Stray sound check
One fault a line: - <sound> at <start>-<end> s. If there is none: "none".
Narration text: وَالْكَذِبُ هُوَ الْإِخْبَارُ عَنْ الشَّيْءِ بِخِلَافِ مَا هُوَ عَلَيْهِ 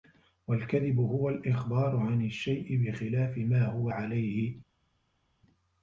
none